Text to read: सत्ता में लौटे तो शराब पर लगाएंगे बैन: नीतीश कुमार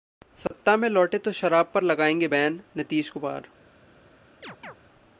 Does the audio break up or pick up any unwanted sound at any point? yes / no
yes